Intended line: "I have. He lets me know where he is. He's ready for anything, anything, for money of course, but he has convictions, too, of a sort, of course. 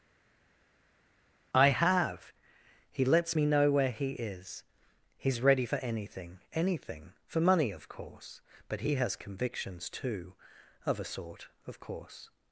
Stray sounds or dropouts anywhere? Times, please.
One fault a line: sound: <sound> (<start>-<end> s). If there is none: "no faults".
no faults